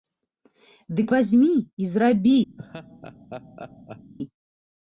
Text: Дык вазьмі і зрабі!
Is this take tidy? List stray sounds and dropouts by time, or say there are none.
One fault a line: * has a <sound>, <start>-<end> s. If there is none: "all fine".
* has a laugh, 2.6-4.1 s